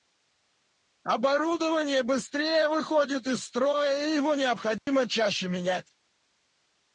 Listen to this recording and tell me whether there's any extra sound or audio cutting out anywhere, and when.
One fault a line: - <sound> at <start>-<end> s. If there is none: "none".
- dropout at 4.8-4.9 s